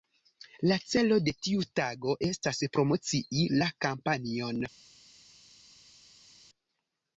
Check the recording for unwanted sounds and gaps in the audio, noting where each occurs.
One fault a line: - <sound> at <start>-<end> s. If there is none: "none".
none